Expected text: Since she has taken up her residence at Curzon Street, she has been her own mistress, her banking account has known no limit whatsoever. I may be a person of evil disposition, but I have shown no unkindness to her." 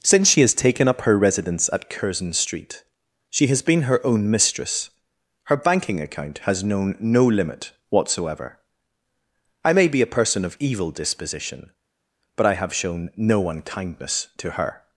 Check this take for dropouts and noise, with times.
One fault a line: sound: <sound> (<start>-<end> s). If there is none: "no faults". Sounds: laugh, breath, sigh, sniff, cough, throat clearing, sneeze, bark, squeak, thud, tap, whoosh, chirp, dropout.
no faults